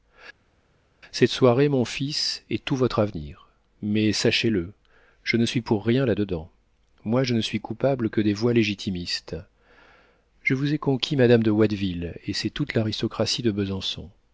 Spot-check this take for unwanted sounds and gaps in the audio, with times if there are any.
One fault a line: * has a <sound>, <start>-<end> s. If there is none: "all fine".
all fine